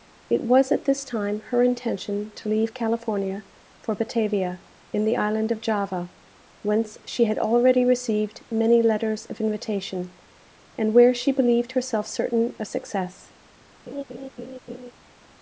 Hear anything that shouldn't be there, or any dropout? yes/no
yes